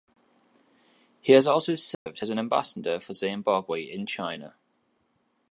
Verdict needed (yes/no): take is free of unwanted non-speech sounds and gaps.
no